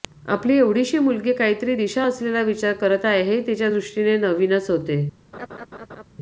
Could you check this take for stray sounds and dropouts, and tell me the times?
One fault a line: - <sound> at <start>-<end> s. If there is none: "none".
- laugh at 5.3-6.0 s